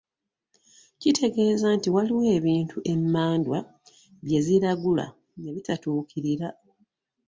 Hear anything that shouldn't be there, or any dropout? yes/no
no